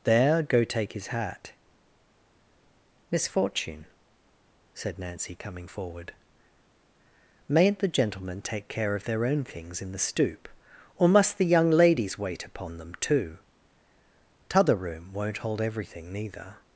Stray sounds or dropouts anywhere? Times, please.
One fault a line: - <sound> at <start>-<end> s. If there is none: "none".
none